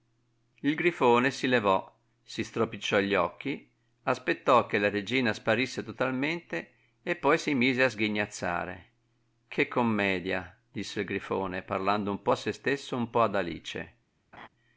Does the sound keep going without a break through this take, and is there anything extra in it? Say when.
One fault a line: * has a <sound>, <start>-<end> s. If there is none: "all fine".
* has a laugh, 14.3-14.5 s